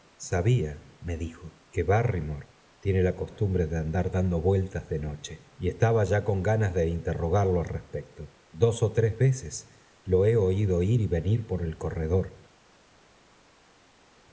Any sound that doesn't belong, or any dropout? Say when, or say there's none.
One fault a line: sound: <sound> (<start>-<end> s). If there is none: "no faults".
no faults